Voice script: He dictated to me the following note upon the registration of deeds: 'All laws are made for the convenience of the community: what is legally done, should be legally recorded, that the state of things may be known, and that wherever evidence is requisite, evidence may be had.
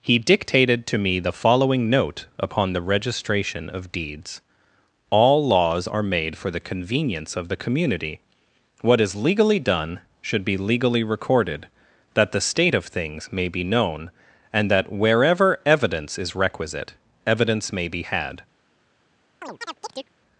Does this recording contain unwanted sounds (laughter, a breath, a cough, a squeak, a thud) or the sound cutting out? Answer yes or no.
yes